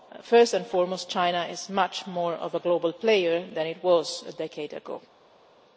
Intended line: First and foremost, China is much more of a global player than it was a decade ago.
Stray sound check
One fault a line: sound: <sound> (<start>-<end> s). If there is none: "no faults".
no faults